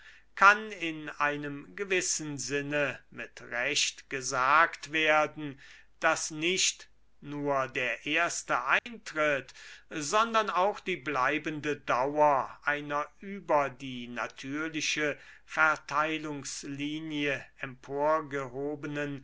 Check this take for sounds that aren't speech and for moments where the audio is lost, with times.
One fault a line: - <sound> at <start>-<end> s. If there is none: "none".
- dropout at 8.8-8.9 s